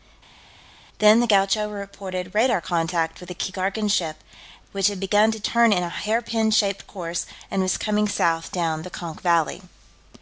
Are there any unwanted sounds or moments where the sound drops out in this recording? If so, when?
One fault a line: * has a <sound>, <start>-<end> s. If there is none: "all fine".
all fine